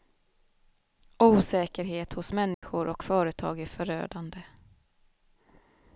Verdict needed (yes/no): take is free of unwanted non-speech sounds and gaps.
no